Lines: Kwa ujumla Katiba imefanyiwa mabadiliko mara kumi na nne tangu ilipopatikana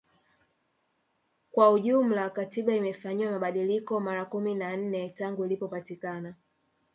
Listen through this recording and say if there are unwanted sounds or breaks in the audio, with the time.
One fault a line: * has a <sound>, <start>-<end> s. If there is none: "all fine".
all fine